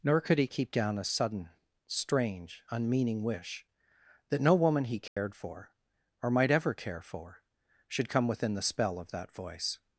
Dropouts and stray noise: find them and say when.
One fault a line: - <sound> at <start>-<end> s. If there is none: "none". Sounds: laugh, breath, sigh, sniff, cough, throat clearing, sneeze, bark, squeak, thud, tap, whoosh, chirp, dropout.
- dropout at 5.1-5.2 s